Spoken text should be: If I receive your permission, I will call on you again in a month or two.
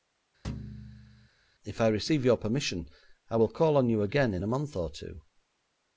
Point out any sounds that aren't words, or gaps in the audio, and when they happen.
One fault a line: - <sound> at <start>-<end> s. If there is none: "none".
- thud at 0.4-1.3 s